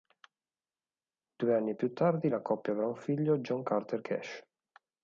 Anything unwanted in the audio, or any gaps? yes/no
no